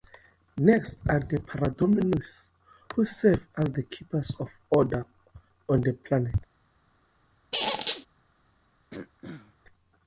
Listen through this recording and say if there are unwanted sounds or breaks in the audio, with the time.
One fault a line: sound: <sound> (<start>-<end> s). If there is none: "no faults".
sound: squeak (7.5-8.1 s)
sound: throat clearing (8.9-9.6 s)